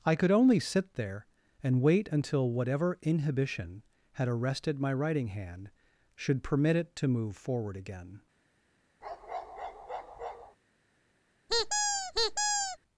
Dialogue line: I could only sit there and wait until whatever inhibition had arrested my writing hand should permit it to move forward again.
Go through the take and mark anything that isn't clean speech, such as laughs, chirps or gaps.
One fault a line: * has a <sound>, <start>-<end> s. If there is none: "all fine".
* has a bark, 9.0-10.6 s
* has a squeak, 11.5-12.8 s